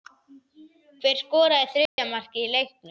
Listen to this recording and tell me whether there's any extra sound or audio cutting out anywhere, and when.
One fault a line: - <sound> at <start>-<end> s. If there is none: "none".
- dropout at 1.9-2.0 s